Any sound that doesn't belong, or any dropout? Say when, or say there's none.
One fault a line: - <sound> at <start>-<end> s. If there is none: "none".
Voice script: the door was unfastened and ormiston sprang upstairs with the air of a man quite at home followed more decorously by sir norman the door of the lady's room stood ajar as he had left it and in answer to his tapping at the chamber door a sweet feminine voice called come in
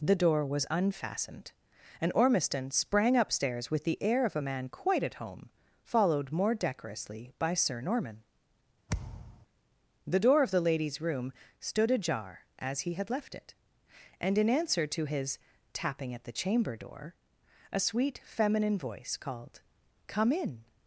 - thud at 8.9-9.5 s